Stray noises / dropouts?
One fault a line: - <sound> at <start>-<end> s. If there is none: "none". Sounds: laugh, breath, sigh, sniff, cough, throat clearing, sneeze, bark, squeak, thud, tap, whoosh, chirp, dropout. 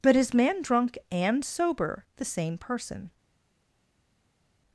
none